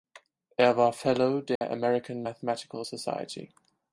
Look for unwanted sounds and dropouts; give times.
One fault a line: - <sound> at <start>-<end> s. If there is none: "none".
- dropout at 1.6-1.6 s